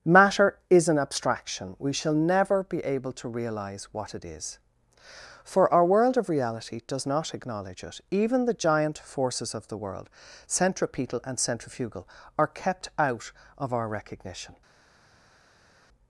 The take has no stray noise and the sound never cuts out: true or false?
true